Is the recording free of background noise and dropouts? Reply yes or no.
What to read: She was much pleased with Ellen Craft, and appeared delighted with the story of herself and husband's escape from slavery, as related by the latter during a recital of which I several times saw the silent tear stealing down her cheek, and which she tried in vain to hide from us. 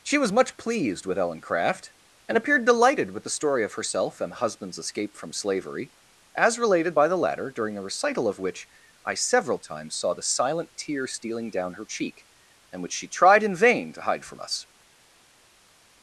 yes